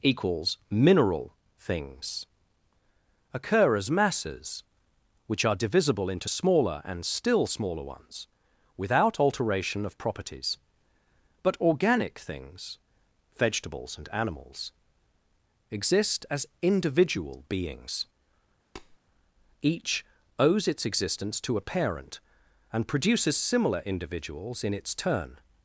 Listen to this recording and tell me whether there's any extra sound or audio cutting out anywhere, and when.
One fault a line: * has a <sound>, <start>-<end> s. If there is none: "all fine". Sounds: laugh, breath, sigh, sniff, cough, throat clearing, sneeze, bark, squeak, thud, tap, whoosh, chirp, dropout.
* has a tap, 18.8-19.0 s